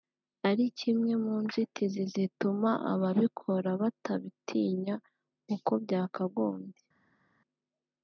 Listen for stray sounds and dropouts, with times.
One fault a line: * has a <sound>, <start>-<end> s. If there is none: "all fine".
all fine